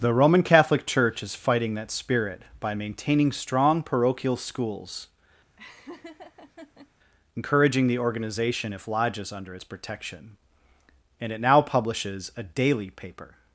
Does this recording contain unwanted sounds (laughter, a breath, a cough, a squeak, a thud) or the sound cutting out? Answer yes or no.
yes